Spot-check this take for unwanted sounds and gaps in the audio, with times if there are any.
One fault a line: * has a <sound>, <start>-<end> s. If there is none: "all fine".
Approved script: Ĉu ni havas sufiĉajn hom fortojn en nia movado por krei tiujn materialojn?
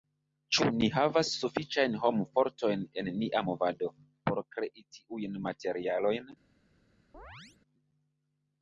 * has a chirp, 7.1-7.6 s